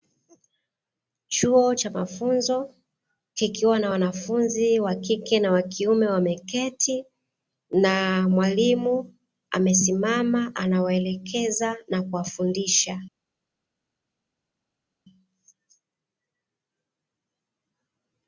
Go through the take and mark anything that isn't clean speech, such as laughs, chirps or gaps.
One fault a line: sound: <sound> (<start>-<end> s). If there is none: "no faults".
no faults